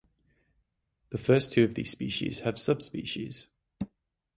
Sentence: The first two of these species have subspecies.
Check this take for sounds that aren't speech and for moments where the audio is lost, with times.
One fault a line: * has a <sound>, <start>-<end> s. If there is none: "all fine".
all fine